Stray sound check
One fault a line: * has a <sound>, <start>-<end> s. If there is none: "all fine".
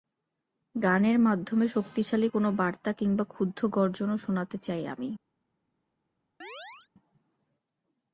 * has a chirp, 6.4-6.9 s